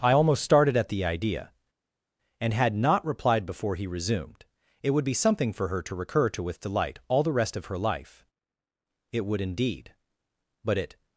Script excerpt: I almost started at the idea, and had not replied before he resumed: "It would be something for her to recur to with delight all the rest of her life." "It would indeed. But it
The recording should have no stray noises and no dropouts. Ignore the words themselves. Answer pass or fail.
pass